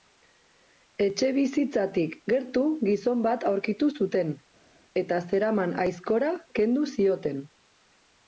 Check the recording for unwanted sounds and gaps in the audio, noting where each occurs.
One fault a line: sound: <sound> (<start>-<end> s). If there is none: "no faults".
no faults